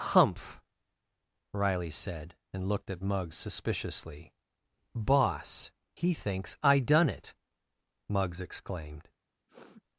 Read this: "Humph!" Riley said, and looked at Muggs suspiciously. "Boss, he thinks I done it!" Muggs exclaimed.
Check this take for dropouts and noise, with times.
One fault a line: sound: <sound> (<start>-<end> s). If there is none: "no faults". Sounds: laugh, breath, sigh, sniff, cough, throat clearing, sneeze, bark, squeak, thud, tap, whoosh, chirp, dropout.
sound: sniff (9.5-9.8 s)